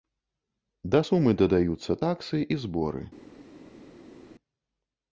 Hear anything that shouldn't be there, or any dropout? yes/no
no